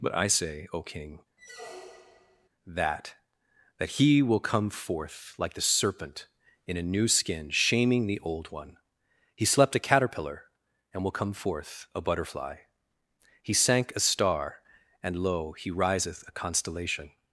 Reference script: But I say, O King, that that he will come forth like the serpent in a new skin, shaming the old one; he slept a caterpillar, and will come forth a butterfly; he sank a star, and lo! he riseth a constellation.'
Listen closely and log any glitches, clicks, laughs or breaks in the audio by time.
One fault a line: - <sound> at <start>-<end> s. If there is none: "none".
- squeak at 1.4-2.5 s